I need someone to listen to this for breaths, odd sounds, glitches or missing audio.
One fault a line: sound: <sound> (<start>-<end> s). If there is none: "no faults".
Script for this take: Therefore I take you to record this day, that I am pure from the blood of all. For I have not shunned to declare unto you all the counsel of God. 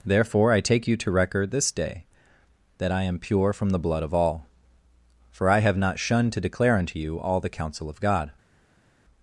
no faults